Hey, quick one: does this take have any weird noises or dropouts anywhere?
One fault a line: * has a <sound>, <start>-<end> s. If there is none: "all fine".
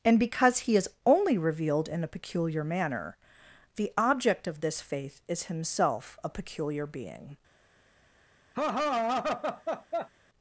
* has a laugh, 8.5-10.1 s